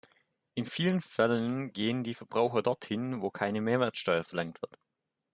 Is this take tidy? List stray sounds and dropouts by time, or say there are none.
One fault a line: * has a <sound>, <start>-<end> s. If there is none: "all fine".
all fine